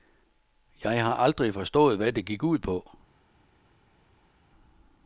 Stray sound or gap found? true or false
false